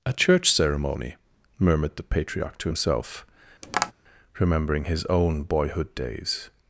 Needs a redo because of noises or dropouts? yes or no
yes